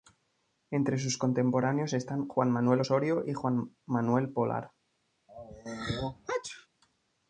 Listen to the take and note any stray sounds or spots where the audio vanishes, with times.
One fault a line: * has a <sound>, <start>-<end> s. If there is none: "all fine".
* has a sneeze, 5.3-6.7 s